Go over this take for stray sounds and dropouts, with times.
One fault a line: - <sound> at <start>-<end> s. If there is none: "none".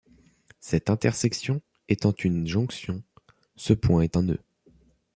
none